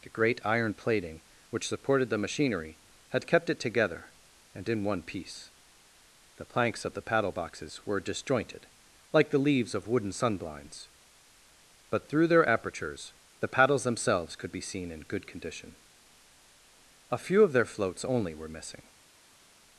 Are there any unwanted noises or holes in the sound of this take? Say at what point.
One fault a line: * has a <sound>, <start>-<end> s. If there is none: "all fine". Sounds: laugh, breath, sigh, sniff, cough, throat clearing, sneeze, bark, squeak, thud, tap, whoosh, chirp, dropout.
all fine